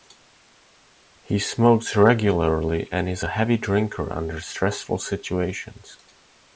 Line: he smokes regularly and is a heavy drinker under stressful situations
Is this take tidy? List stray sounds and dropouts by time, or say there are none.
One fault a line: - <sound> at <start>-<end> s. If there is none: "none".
none